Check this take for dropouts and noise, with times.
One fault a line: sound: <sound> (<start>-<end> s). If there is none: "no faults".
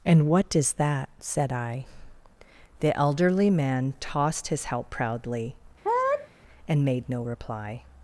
sound: sneeze (5.8-6.3 s)